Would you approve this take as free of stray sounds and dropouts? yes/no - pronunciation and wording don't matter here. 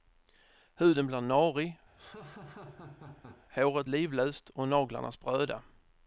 no